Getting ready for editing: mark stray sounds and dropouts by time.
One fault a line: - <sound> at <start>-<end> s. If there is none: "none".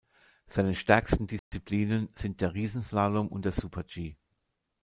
- dropout at 1.4-1.5 s